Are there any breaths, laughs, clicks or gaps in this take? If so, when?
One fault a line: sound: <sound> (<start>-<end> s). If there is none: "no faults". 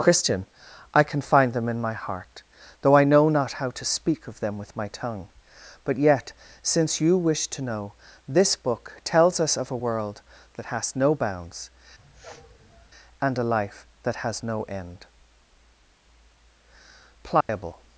sound: sniff (12.0-12.9 s)
sound: dropout (17.4-17.5 s)